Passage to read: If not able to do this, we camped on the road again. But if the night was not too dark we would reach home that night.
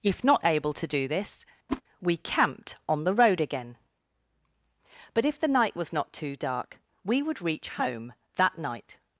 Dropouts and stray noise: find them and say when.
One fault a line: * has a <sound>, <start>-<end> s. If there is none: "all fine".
* has a whoosh, 1.7-1.8 s